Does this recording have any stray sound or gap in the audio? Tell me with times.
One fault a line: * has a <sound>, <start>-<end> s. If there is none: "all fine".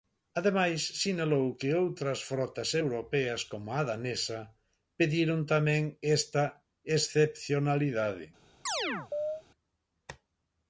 * has a chirp, 8.7-9.4 s